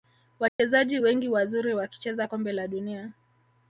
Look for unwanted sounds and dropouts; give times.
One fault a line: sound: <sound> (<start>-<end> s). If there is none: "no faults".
sound: dropout (0.5-0.6 s)